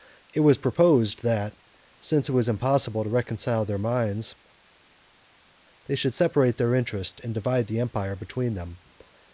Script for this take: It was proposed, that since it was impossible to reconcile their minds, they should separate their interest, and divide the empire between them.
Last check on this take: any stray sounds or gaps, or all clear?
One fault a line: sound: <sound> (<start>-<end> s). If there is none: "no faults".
no faults